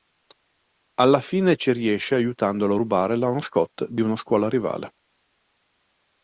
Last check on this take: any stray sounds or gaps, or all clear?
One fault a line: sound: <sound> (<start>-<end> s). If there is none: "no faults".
no faults